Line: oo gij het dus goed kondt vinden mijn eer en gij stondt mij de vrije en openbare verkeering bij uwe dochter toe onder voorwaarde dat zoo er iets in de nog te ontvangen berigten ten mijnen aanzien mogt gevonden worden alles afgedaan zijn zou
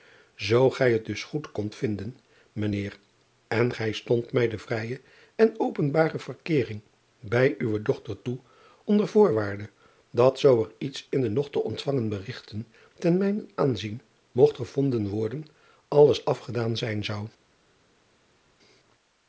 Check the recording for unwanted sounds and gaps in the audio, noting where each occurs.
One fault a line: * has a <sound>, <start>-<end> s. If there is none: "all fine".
all fine